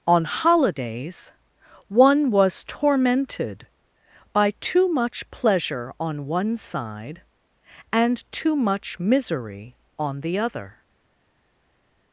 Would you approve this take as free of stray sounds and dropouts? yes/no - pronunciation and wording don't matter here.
yes